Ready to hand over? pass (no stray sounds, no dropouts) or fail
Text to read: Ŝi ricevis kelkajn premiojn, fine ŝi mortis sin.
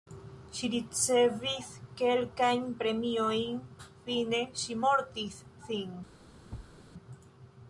fail